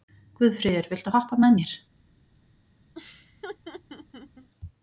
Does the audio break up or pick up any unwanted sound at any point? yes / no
yes